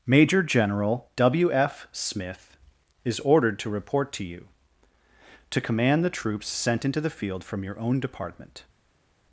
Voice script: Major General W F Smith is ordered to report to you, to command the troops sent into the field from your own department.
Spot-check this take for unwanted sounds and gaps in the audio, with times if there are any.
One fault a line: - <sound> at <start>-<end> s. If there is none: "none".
none